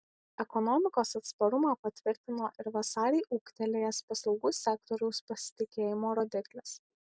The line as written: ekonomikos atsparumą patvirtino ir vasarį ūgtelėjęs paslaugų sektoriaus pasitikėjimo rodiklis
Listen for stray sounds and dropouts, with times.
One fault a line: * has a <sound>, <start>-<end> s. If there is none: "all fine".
all fine